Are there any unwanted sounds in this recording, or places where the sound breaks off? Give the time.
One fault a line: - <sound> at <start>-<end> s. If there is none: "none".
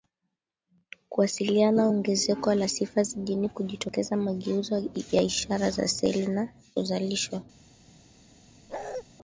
- bark at 8.7-9.0 s